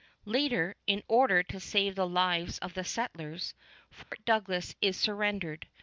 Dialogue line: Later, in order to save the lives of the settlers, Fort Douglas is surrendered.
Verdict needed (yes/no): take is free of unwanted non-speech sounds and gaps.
no